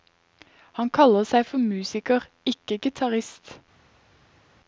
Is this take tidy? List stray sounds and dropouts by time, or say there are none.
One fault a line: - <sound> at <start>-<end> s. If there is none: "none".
none